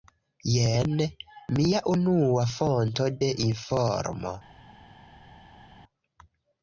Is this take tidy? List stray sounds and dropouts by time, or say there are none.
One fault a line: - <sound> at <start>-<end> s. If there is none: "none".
none